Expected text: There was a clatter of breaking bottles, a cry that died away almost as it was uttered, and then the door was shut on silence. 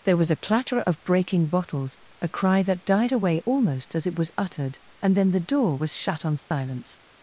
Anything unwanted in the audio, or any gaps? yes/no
yes